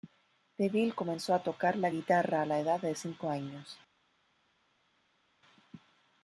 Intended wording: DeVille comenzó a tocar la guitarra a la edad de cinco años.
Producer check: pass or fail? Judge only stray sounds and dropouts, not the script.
pass